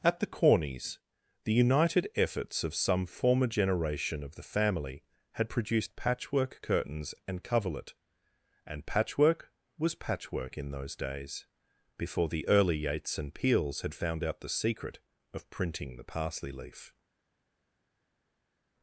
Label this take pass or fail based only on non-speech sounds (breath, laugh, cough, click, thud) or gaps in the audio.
pass